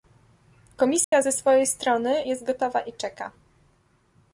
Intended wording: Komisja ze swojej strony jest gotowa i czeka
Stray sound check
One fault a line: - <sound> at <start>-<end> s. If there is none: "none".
- dropout at 1.0-1.1 s